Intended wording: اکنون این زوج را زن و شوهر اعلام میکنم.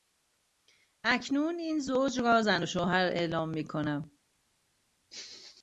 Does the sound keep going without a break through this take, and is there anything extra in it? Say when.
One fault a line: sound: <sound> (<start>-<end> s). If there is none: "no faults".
no faults